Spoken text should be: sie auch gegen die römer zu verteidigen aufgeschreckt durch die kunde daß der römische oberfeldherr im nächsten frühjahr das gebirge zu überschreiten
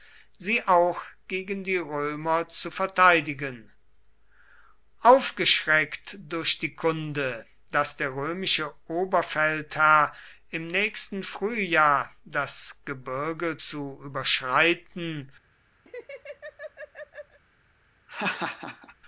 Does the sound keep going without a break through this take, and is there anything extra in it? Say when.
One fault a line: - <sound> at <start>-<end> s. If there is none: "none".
- laugh at 15.9-17.4 s
- laugh at 18.1-18.9 s